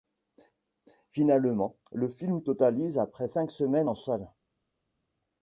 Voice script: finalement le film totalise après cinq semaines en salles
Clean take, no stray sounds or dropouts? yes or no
yes